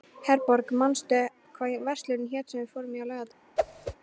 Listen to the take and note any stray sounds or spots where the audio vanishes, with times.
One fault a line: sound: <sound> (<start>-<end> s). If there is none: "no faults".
sound: whoosh (3.6-4.0 s)